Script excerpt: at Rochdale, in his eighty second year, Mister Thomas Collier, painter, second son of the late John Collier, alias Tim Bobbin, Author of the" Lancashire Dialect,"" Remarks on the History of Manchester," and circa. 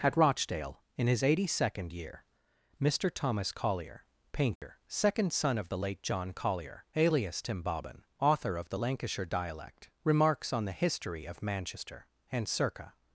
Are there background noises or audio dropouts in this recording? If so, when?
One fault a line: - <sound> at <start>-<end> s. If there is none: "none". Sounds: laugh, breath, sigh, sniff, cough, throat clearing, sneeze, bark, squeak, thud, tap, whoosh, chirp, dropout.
- dropout at 4.6-4.6 s